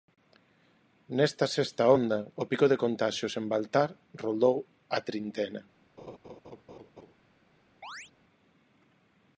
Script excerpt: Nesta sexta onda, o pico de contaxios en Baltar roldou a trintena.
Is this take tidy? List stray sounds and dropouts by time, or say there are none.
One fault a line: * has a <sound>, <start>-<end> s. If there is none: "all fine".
* has a laugh, 6.0-7.1 s
* has a chirp, 7.8-8.1 s